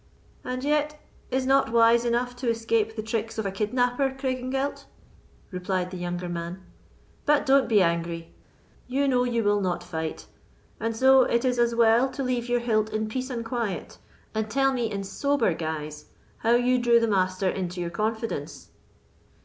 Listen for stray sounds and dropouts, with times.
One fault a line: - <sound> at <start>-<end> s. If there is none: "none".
none